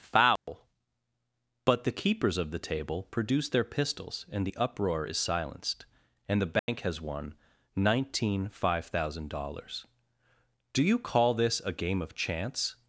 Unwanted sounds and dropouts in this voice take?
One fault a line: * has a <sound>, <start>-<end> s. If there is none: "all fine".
* has a dropout, 0.4-0.5 s
* has a dropout, 6.6-6.7 s